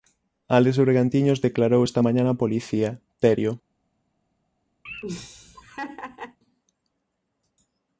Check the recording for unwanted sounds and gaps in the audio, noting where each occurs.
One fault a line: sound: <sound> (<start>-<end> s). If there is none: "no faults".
sound: laugh (4.9-6.4 s)